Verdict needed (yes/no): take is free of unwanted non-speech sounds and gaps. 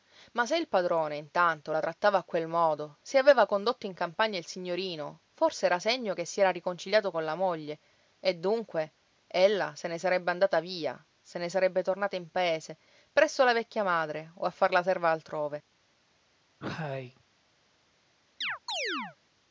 no